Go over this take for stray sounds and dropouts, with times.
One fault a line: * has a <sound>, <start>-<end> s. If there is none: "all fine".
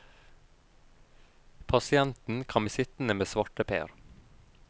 all fine